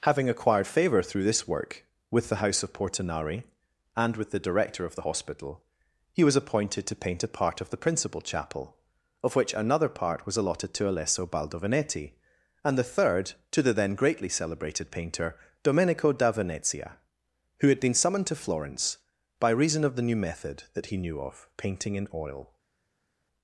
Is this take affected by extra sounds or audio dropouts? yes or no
no